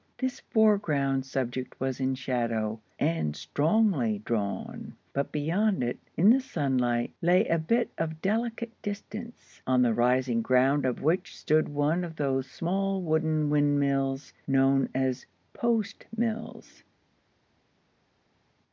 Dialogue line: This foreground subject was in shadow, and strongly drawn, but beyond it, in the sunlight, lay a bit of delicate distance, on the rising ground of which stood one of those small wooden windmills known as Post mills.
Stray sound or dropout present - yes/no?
no